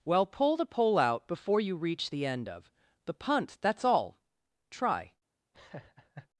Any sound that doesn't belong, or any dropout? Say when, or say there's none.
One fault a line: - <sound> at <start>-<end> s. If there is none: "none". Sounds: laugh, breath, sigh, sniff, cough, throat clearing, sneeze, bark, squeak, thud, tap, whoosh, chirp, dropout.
- laugh at 5.5-6.3 s